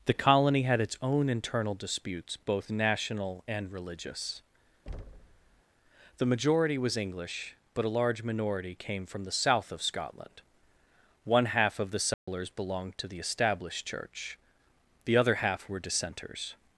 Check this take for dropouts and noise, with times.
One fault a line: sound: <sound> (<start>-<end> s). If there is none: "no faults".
sound: thud (4.9-5.6 s)
sound: dropout (12.1-12.3 s)